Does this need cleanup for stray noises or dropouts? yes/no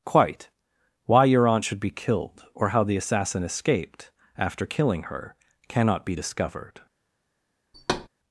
yes